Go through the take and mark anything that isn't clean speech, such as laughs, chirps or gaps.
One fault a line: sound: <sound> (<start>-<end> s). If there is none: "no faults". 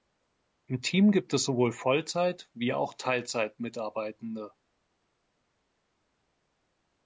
no faults